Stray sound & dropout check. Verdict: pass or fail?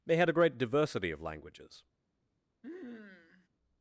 fail